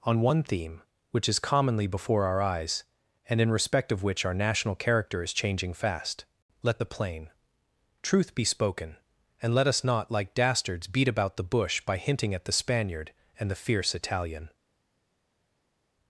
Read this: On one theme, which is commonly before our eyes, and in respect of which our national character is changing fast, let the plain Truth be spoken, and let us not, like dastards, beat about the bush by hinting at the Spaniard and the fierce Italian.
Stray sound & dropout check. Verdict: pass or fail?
pass